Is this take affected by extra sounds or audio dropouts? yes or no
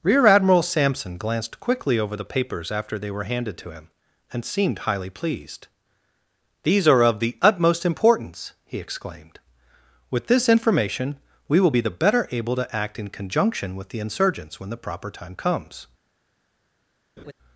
yes